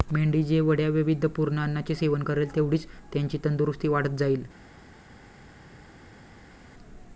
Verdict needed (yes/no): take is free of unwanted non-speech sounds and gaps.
yes